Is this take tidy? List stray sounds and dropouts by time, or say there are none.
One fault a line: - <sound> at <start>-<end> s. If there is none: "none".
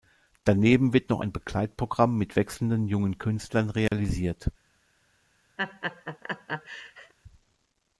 - dropout at 3.9-3.9 s
- laugh at 5.6-7.1 s